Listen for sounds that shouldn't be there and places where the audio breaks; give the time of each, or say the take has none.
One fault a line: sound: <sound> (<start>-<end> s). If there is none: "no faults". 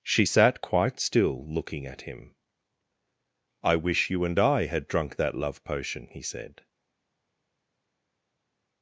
no faults